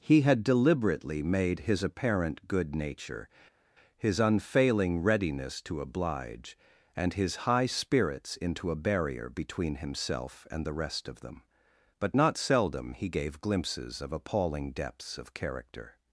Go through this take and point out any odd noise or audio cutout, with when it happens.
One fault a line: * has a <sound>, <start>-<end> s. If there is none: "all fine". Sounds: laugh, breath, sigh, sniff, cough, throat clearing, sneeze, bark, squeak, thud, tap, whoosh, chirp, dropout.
all fine